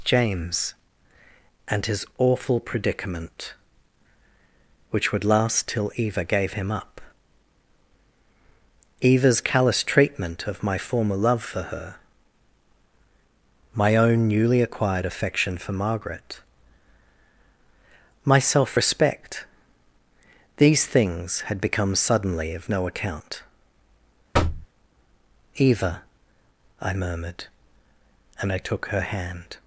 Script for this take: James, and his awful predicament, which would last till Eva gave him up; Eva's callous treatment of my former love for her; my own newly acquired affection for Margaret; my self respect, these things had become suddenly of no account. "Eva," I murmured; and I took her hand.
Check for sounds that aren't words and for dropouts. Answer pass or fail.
fail